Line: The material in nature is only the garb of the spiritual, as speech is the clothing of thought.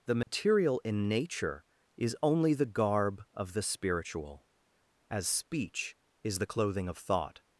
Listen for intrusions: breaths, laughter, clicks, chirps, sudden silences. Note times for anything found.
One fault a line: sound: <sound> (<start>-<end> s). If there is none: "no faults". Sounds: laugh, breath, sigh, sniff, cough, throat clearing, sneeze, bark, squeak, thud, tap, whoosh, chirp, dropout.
sound: dropout (0.2-0.3 s)